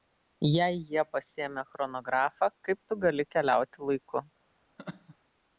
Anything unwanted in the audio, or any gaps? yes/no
yes